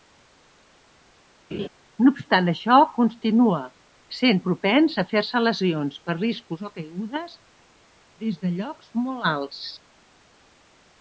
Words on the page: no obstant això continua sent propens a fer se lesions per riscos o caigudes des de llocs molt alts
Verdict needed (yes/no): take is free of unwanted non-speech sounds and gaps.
no